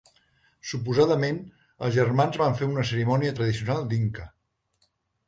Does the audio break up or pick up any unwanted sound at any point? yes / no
no